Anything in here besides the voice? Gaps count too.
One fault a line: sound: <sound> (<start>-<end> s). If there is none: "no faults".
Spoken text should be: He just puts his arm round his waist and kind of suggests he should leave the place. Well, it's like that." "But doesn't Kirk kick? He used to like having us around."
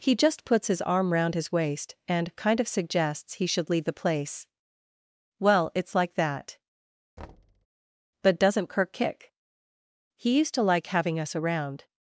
sound: thud (7.2-7.7 s)